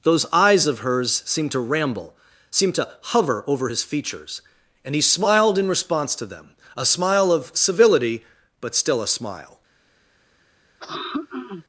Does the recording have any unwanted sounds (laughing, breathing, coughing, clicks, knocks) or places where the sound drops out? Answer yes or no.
yes